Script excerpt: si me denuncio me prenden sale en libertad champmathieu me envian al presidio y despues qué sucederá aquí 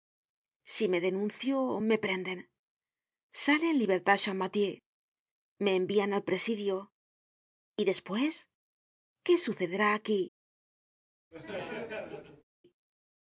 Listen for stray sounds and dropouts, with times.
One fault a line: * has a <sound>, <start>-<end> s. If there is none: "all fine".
* has a laugh, 11.3-12.4 s